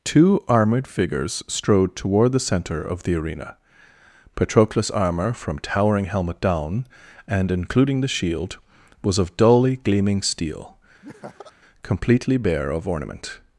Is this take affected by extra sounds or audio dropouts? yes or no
yes